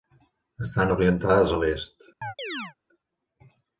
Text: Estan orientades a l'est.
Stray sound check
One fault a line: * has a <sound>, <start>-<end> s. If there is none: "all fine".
* has a chirp, 2.2-2.7 s